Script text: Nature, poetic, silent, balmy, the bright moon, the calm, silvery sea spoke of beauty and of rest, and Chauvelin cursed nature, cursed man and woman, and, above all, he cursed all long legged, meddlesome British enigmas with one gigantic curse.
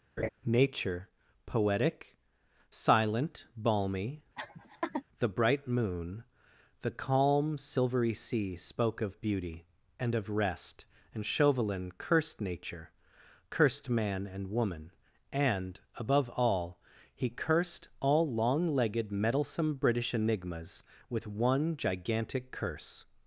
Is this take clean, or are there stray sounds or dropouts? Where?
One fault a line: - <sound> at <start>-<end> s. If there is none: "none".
- laugh at 0.2-0.3 s
- laugh at 4.4-5.0 s